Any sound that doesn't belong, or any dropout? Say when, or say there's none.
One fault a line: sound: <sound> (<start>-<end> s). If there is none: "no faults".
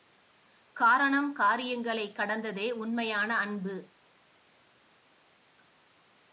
no faults